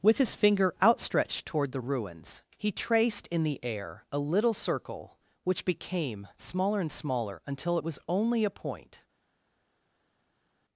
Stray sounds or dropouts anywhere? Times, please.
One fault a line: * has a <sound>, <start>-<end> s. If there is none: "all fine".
all fine